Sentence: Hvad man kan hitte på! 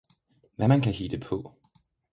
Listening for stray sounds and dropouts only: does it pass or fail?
pass